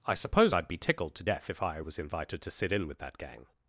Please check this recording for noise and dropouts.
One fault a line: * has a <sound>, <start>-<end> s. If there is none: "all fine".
all fine